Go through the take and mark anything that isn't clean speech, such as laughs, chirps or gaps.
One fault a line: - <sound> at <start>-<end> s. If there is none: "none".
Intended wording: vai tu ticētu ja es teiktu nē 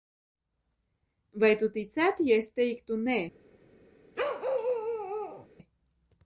- bark at 4.2-5.5 s